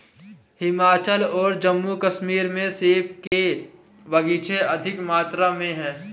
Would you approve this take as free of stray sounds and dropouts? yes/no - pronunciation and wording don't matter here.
no